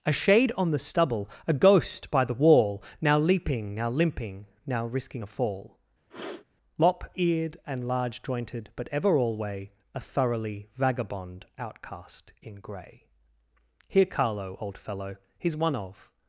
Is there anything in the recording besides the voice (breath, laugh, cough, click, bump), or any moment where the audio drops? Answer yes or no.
yes